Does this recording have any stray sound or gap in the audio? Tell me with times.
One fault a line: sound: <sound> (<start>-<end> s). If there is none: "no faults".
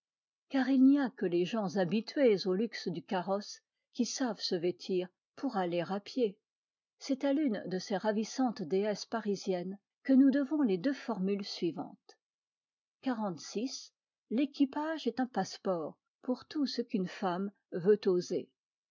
no faults